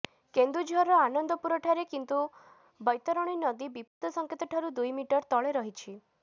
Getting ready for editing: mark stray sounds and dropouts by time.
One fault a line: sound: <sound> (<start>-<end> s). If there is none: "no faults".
sound: dropout (3.9-4.0 s)